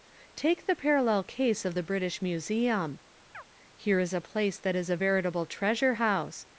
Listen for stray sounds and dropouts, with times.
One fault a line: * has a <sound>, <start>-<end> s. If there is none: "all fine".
* has a chirp, 3.3-3.4 s